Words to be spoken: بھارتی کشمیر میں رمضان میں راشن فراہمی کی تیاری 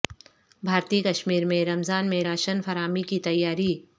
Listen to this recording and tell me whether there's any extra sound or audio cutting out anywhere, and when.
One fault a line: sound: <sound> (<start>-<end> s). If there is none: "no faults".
no faults